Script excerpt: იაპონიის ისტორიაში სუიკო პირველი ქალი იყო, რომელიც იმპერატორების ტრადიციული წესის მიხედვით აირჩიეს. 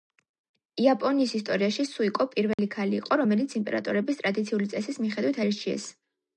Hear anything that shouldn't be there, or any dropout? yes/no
yes